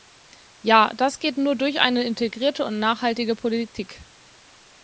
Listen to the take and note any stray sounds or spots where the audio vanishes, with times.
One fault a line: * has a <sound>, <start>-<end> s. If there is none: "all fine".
all fine